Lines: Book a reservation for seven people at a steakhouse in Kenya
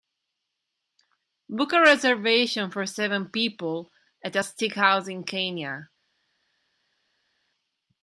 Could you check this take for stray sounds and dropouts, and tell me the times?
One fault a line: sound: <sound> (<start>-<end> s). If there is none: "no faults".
no faults